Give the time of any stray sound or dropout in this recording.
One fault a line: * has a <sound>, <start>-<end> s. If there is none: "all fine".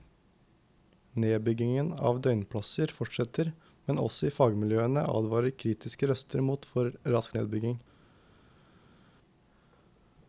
all fine